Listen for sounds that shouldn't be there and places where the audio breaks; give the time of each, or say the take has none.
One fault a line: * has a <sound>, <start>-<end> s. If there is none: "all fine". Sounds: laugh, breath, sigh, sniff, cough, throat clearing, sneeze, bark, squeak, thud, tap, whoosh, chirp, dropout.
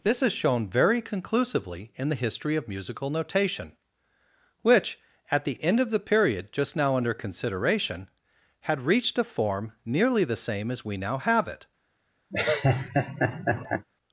* has a laugh, 12.3-13.9 s